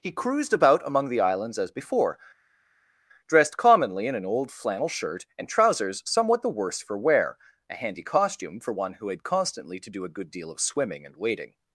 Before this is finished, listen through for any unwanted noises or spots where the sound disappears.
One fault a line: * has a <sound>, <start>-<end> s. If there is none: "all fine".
all fine